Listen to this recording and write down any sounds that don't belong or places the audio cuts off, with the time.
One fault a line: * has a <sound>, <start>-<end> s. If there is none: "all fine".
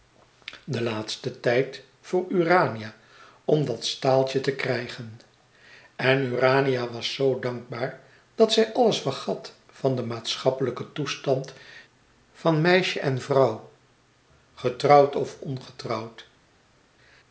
all fine